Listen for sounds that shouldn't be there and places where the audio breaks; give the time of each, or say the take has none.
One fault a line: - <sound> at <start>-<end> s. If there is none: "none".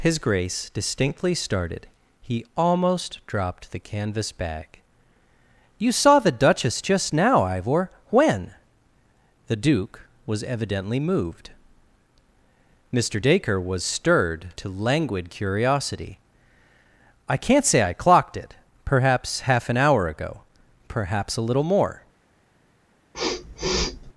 - sniff at 23.1-24.1 s